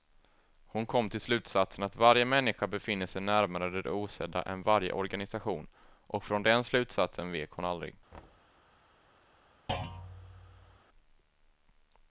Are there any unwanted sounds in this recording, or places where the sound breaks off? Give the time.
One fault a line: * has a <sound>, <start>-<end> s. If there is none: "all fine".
* has a thud, 8.1-8.6 s
* has a thud, 9.7-10.8 s